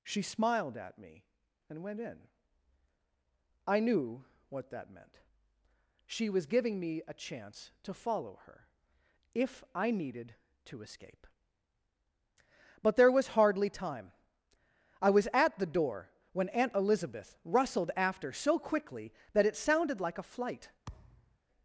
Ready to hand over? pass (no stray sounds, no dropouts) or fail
fail